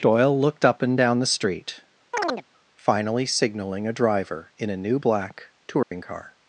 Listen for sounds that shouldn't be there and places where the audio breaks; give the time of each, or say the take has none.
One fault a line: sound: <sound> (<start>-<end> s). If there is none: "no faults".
sound: chirp (2.1-2.4 s)
sound: dropout (5.8-5.9 s)